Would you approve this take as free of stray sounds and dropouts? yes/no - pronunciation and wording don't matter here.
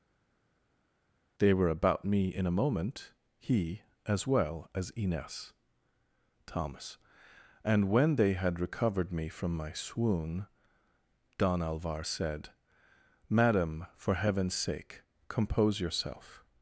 yes